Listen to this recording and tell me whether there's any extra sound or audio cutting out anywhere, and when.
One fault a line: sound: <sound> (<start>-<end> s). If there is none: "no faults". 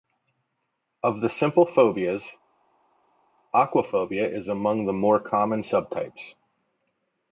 no faults